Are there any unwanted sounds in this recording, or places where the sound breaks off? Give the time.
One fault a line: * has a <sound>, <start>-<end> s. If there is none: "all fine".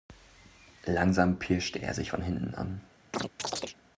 * has a chirp, 3.1-3.8 s